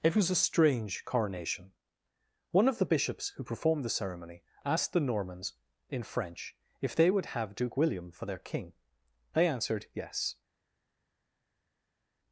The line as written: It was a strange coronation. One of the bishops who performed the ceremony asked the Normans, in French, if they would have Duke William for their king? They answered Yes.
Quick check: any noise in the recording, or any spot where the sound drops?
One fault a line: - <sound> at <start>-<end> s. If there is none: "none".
none